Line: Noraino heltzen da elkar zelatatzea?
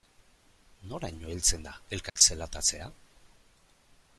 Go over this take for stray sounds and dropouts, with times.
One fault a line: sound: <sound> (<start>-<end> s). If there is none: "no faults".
sound: dropout (2.1-2.2 s)